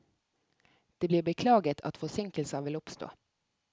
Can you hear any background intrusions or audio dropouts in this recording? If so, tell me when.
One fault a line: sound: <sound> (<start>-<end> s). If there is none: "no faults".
no faults